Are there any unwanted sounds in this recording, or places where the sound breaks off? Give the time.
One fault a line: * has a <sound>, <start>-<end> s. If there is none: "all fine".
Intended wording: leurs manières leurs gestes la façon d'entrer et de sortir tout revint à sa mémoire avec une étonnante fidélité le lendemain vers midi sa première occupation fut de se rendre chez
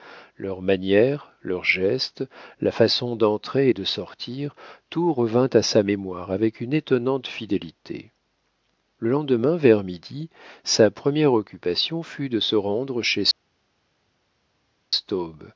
all fine